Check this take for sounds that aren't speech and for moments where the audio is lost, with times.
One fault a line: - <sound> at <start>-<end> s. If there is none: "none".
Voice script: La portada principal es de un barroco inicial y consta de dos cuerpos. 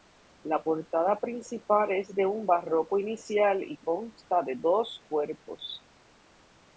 none